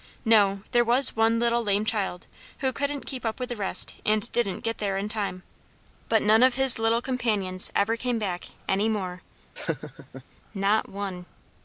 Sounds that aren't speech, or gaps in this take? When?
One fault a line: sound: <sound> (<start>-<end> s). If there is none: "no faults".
sound: laugh (9.6-10.2 s)